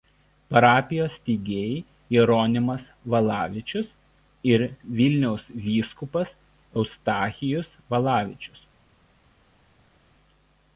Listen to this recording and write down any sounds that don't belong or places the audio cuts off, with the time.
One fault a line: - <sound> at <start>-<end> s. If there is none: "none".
none